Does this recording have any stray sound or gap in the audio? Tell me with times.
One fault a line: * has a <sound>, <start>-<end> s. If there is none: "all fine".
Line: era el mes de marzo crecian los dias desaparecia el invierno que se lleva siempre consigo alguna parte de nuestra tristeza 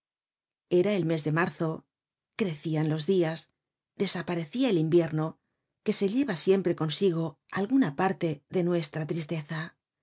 all fine